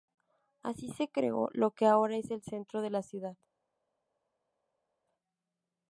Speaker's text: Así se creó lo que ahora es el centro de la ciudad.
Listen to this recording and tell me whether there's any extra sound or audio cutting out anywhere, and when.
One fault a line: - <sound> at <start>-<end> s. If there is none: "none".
none